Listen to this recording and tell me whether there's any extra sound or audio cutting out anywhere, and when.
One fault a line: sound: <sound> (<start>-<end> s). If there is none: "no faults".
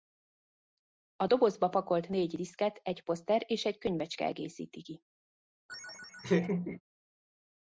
sound: laugh (5.7-6.8 s)